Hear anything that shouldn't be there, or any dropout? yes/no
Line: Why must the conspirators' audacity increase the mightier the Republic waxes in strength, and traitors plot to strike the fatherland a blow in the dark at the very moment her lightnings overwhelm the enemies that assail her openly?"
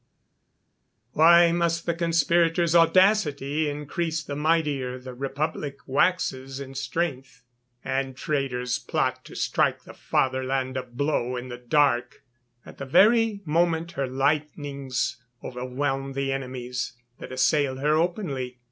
no